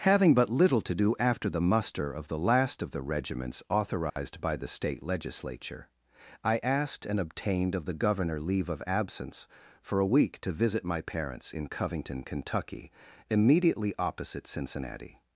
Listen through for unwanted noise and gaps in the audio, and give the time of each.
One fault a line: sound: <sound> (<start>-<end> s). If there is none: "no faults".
sound: dropout (4.1-4.2 s)